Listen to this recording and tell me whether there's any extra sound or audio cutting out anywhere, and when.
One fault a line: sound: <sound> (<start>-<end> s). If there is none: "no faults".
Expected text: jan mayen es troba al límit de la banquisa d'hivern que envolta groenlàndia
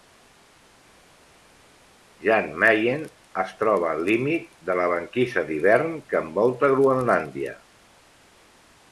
no faults